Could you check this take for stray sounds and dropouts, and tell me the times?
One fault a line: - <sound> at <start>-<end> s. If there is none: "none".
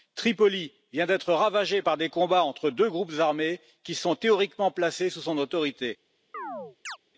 - chirp at 6.3-7.0 s